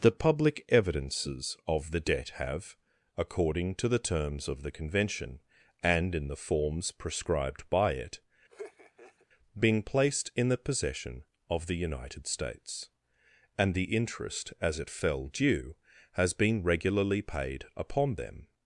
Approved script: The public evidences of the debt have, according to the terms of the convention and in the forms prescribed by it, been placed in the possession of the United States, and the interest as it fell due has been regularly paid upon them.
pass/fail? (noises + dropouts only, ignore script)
fail